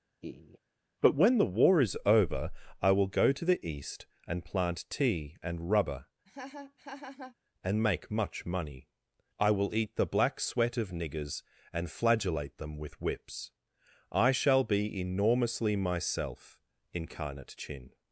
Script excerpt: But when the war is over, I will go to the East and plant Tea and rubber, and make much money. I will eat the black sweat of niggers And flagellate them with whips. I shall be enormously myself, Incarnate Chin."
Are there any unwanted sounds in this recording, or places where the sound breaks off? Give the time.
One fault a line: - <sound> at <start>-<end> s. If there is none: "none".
- laugh at 0.2-0.6 s
- laugh at 6.3-7.4 s